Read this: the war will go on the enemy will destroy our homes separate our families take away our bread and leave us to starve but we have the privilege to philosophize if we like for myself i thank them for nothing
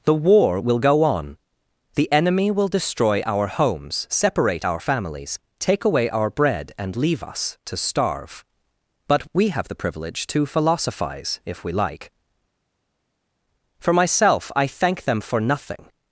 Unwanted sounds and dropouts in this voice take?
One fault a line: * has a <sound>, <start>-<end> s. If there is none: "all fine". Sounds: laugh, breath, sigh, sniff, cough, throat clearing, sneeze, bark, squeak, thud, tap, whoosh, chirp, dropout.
all fine